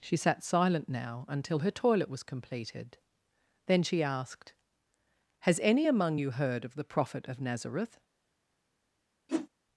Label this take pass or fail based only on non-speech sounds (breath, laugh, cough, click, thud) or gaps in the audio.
fail